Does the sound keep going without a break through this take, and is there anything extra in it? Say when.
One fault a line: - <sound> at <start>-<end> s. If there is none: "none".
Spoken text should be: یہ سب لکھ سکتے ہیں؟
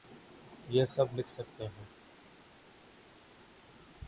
none